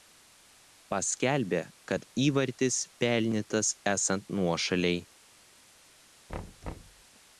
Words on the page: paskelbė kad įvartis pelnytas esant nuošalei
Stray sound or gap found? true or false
true